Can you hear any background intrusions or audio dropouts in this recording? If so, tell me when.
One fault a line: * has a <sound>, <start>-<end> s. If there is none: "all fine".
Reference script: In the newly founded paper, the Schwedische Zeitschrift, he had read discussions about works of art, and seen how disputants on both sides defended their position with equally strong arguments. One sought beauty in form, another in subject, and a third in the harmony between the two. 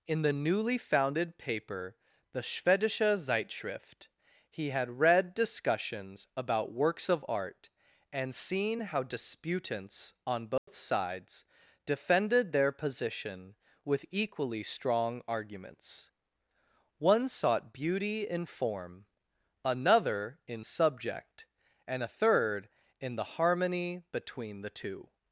* has a dropout, 10.6-10.7 s